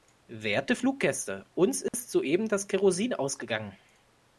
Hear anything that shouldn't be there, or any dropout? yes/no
yes